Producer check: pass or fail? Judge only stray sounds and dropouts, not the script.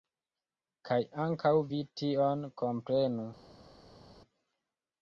pass